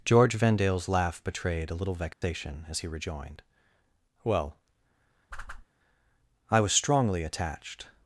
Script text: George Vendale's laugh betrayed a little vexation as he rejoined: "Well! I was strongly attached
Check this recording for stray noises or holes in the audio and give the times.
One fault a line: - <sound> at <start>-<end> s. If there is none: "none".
- dropout at 2.1-2.2 s
- whoosh at 5.3-5.7 s